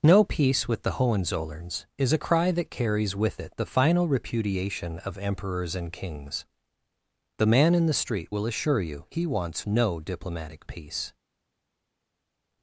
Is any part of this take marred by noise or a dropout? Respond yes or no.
no